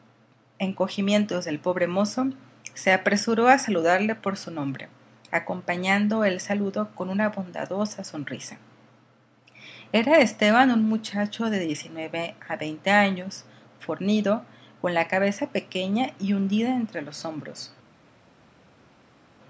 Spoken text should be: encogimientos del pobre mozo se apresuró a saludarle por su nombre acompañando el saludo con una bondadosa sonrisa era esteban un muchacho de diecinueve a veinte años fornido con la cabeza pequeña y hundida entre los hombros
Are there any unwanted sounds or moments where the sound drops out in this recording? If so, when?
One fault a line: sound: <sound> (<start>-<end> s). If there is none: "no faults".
no faults